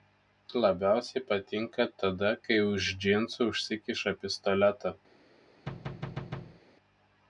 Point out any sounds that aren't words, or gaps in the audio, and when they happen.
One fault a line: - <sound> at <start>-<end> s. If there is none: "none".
- thud at 5.7-6.6 s